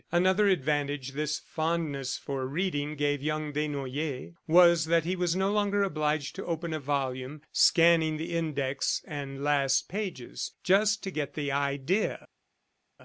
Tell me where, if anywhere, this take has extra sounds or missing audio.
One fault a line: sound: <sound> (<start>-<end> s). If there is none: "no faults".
no faults